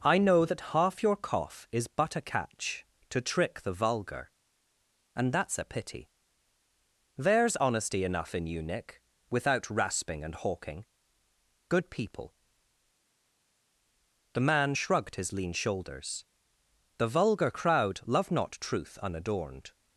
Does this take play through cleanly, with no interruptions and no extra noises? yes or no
yes